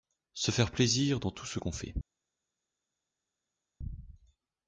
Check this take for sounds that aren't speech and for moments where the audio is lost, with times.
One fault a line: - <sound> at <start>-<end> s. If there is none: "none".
none